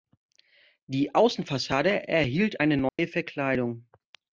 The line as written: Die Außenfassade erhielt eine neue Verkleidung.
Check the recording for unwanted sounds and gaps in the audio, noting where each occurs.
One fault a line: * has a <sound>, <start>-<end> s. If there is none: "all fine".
* has a dropout, 2.9-3.0 s